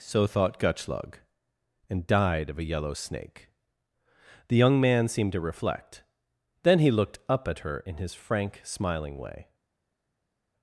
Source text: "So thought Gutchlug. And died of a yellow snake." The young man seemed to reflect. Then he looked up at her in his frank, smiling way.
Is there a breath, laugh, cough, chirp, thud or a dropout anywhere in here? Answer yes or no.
no